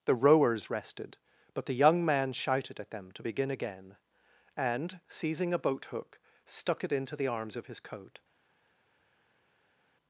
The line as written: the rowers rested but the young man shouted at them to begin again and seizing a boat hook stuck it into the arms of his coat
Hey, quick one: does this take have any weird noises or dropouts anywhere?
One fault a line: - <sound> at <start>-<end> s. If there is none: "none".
none